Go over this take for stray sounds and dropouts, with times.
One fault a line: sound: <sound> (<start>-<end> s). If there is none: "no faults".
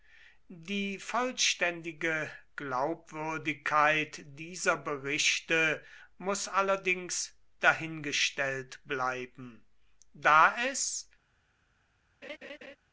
sound: laugh (12.2-12.8 s)